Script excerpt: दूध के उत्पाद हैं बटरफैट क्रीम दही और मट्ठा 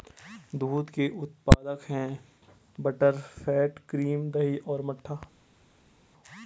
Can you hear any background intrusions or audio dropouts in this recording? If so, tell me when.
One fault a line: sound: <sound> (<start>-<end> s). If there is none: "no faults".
no faults